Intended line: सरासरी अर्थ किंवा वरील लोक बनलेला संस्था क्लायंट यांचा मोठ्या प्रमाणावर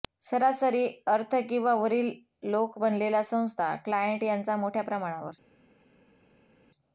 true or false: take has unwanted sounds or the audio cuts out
false